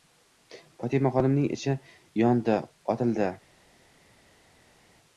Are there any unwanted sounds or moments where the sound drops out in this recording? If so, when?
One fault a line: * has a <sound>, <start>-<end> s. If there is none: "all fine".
all fine